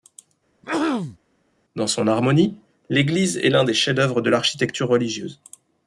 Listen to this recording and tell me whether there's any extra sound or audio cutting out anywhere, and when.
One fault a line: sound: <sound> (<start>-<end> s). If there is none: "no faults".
sound: throat clearing (0.6-1.2 s)